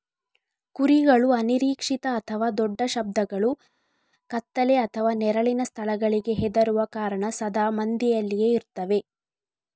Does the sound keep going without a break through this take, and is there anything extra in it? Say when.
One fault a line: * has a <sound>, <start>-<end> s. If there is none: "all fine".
all fine